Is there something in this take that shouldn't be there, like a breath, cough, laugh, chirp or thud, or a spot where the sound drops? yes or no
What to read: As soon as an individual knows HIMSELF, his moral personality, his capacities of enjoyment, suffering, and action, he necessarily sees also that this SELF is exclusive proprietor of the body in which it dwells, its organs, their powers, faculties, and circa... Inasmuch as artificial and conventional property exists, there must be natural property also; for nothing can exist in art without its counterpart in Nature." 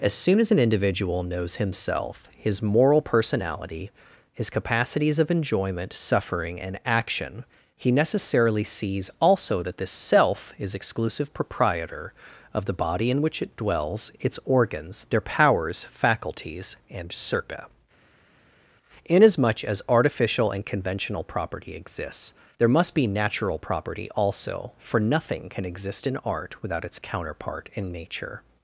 no